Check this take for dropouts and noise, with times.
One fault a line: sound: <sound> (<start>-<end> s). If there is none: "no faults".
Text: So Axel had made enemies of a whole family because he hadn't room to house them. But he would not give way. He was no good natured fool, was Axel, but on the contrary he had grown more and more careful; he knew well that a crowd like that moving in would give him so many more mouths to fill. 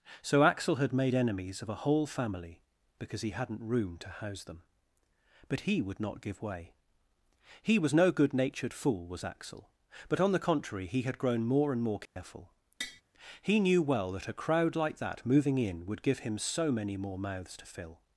sound: dropout (12.1-12.2 s)
sound: tap (12.8-13.0 s)